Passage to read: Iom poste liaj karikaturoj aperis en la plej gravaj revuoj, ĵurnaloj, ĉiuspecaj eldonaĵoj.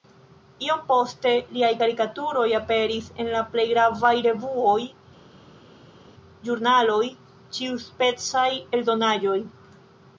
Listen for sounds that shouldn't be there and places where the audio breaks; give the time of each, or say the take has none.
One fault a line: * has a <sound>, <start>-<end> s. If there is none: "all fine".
all fine